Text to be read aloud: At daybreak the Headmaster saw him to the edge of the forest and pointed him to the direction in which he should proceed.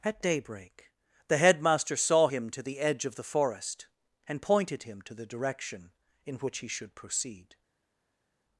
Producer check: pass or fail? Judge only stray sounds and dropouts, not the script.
pass